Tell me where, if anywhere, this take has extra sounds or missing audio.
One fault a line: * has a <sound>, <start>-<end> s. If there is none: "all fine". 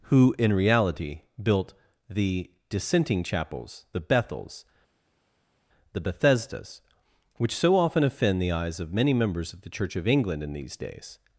all fine